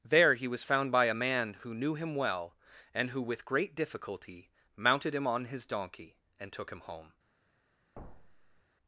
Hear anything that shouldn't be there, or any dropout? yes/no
yes